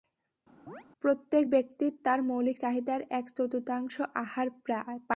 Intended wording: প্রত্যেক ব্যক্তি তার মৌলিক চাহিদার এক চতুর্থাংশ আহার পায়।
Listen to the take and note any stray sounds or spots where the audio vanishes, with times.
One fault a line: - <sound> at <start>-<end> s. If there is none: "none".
- chirp at 0.7-0.8 s